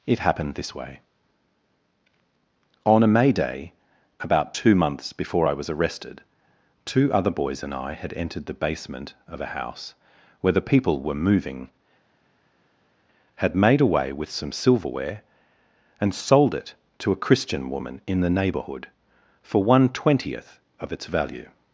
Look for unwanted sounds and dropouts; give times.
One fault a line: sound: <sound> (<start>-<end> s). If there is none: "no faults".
no faults